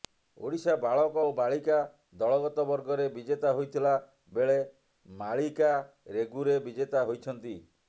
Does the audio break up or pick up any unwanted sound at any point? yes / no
no